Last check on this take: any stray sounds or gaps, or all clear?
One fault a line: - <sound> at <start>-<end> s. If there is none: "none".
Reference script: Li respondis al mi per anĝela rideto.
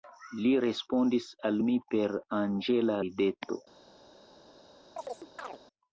- chirp at 5.0-5.6 s